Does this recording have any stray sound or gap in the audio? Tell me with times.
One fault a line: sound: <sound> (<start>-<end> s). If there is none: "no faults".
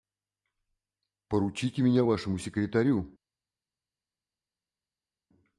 no faults